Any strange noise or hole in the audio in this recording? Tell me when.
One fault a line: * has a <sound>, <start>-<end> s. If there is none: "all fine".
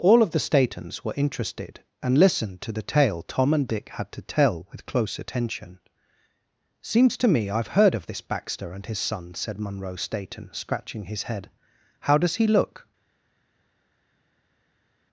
all fine